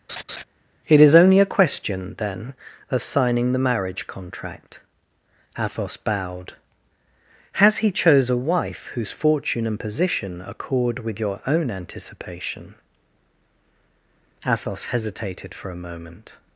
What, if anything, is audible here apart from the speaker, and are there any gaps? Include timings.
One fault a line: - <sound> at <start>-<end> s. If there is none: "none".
- laugh at 0.1-0.4 s